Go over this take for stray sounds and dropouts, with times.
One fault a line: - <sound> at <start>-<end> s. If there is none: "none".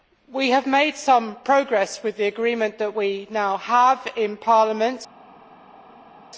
none